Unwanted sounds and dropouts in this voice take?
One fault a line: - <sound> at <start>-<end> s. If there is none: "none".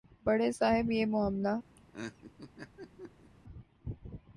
- laugh at 1.8-3.3 s